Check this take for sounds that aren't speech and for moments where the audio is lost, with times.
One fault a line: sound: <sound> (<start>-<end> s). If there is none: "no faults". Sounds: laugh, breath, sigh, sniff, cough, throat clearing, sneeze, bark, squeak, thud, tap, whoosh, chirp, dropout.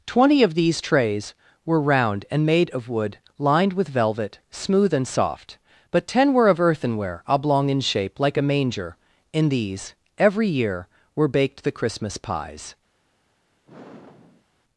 sound: sigh (13.7-14.5 s)